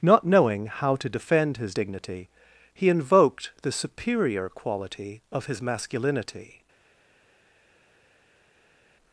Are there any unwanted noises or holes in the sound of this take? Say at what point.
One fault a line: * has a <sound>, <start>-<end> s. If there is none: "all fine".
all fine